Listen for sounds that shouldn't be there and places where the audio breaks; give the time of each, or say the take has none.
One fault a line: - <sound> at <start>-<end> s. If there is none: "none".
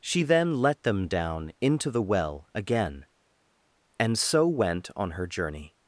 none